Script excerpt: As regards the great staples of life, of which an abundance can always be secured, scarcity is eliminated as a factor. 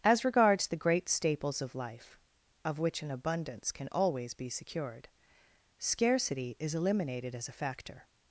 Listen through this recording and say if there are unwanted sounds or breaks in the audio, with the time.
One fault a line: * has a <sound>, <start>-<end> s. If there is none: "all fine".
all fine